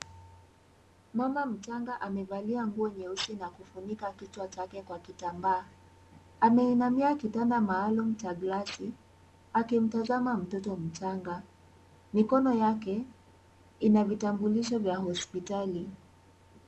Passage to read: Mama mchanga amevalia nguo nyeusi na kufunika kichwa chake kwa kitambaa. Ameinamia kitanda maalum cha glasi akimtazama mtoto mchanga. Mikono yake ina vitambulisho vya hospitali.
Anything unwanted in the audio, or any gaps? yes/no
no